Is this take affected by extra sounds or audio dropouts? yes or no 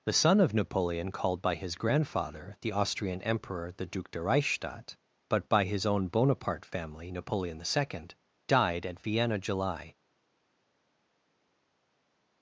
no